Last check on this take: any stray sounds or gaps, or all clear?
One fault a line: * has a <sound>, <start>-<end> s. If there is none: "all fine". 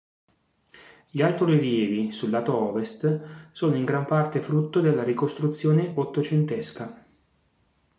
all fine